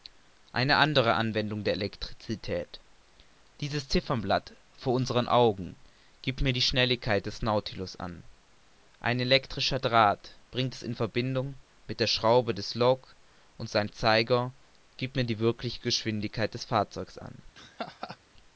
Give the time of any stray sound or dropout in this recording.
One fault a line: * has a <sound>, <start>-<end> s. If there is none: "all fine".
* has a laugh, 17.5-18.2 s